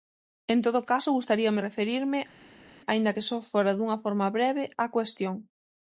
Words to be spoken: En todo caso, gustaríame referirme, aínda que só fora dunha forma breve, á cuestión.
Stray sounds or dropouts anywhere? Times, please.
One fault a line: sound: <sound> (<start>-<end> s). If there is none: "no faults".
no faults